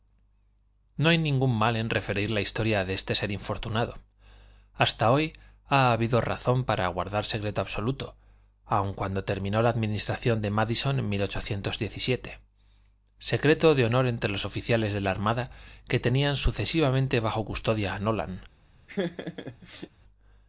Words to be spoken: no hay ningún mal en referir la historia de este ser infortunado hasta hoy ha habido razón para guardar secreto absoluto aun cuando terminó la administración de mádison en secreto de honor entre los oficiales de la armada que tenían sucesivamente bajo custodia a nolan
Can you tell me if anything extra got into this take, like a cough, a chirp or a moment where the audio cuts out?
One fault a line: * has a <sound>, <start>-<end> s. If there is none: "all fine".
* has a laugh, 18.9-19.9 s